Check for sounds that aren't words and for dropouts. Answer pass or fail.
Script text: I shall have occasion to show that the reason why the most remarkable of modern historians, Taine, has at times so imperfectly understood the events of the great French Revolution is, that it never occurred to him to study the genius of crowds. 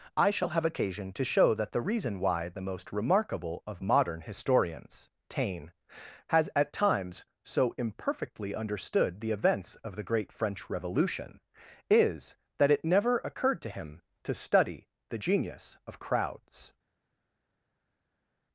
pass